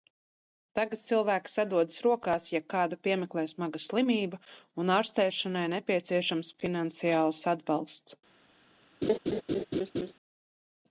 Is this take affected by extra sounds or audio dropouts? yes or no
yes